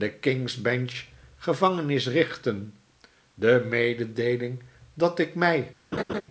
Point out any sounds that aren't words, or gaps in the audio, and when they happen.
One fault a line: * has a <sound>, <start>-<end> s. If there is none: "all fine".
* has a laugh, 5.9-6.2 s